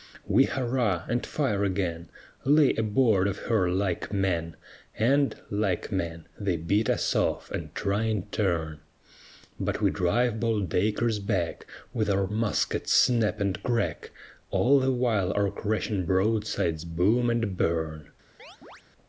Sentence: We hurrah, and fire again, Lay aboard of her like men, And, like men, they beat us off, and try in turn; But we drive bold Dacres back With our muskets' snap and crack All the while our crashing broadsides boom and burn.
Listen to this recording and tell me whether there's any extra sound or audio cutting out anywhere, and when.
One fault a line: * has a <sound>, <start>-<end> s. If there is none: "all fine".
* has a chirp, 18.4-18.8 s